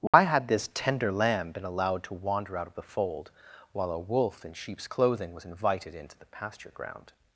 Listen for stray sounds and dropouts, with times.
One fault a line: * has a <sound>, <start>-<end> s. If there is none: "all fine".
* has a dropout, 0.1-0.1 s